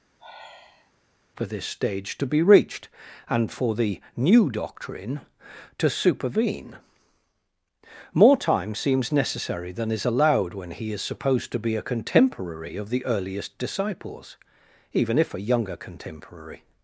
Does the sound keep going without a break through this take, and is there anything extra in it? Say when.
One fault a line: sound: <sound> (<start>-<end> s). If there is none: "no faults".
sound: sigh (0.2-0.9 s)